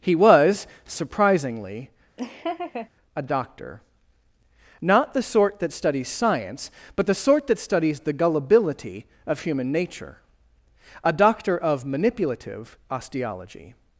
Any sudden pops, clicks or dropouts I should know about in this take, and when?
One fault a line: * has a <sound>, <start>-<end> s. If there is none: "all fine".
* has a laugh, 2.2-2.9 s